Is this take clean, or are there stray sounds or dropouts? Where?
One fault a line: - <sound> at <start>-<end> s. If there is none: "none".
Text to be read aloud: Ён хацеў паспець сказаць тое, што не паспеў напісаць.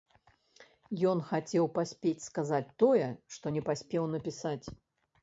none